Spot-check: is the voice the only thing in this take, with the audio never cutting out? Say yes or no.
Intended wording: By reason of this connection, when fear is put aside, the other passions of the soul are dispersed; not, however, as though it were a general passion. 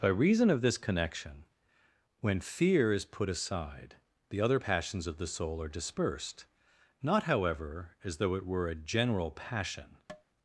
no